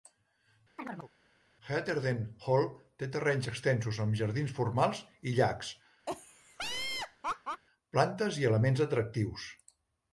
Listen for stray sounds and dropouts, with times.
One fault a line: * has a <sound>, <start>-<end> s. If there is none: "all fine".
* has a chirp, 0.8-1.1 s
* has a laugh, 6.1-7.6 s